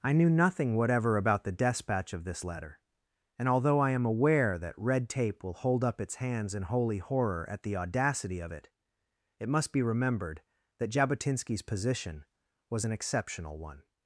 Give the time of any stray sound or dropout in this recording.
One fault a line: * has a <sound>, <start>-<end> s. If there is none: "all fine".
all fine